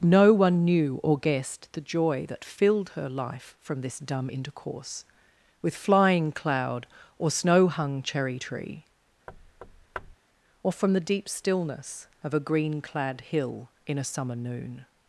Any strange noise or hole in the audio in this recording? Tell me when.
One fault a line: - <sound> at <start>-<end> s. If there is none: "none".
- thud at 9.3-10.2 s